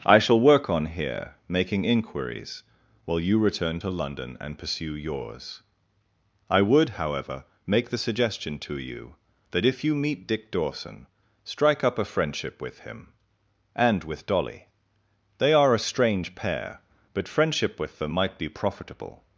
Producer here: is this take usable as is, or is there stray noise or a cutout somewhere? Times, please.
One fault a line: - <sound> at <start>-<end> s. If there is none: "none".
none